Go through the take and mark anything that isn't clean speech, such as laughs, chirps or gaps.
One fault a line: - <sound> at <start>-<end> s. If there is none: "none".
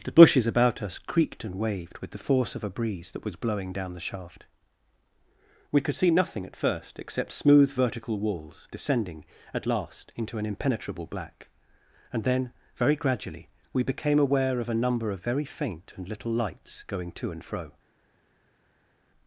none